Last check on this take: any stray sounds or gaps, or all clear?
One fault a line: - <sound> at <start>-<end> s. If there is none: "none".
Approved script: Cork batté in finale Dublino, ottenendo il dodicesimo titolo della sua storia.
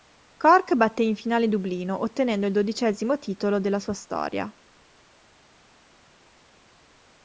none